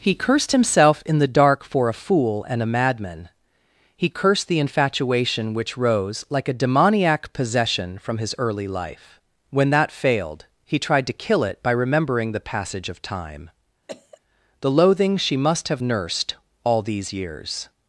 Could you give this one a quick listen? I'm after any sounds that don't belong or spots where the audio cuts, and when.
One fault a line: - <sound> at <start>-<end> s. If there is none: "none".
- cough at 13.9-14.2 s